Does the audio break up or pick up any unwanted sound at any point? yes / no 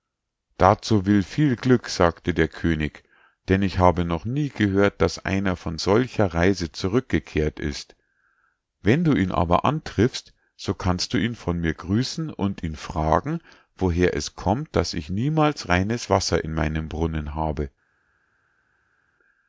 no